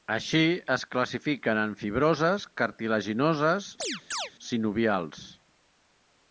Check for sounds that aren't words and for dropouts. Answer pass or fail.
fail